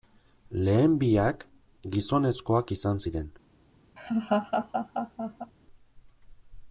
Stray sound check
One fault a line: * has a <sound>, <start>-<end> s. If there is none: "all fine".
* has a laugh, 4.0-5.5 s